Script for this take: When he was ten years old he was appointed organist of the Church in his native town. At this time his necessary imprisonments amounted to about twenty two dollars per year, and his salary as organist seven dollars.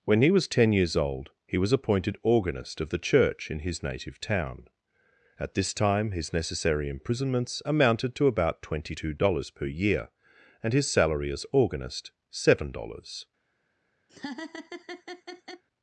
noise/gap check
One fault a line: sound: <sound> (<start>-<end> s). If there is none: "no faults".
sound: laugh (14.1-15.6 s)